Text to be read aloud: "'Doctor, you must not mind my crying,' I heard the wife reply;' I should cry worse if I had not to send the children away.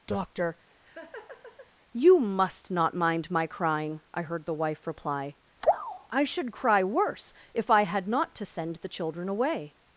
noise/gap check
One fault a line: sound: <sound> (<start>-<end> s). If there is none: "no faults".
sound: laugh (0.7-1.7 s)